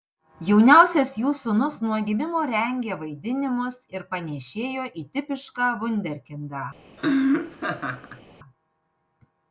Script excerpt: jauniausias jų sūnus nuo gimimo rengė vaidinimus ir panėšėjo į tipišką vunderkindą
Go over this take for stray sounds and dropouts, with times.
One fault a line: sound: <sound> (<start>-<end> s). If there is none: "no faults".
sound: laugh (7.0-8.2 s)